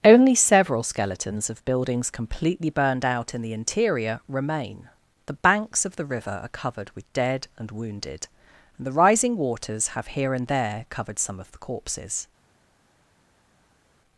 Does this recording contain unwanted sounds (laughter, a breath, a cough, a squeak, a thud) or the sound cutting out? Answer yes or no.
no